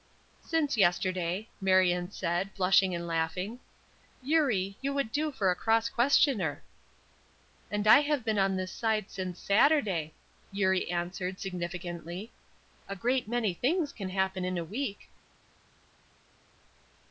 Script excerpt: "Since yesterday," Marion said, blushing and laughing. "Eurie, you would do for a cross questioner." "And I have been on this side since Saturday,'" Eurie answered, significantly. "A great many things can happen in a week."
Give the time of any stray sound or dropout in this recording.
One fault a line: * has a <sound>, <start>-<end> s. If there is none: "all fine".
all fine